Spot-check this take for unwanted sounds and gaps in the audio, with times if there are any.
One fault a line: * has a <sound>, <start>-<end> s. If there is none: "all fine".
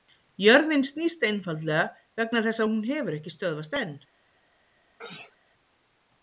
* has a sneeze, 5.0-5.4 s